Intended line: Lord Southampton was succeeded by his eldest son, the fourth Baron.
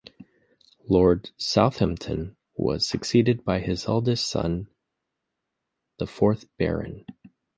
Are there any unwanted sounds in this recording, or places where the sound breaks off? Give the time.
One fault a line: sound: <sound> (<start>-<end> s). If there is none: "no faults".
no faults